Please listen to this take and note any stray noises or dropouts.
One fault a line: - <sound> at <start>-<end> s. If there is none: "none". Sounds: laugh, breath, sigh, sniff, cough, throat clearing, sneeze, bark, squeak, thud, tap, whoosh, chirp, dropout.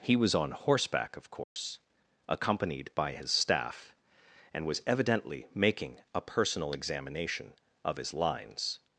- dropout at 1.4-1.6 s